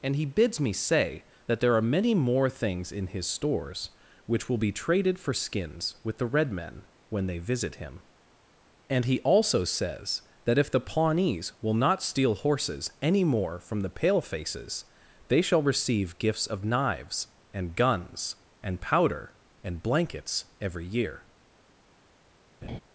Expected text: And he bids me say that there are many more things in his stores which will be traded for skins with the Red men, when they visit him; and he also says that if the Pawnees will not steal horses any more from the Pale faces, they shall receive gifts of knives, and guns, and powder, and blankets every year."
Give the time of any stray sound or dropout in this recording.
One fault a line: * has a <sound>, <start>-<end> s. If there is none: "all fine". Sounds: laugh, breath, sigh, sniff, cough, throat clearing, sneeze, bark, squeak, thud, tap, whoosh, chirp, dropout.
* has a laugh, 22.6-22.8 s